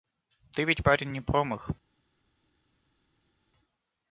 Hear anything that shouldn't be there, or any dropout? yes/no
no